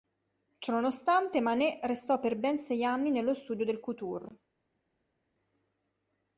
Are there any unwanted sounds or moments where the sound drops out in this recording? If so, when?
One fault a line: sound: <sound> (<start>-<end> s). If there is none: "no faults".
no faults